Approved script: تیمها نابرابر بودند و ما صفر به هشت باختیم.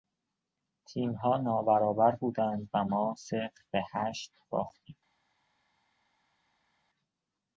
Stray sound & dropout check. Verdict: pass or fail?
pass